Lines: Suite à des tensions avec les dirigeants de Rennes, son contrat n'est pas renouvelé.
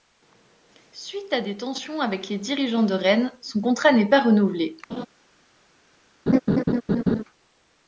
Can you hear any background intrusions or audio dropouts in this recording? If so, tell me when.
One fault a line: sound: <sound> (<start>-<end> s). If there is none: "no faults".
sound: laugh (4.9-5.1 s)
sound: laugh (6.3-7.2 s)